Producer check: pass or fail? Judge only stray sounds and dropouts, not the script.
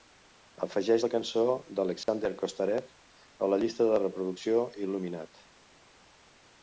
fail